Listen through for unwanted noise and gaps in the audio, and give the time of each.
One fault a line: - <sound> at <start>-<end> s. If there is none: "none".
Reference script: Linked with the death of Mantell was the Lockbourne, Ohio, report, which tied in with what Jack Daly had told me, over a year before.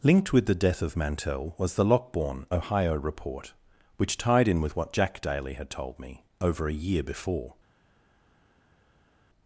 none